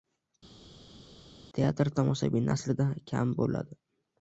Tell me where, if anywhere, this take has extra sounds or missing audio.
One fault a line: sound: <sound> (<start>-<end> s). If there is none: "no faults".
no faults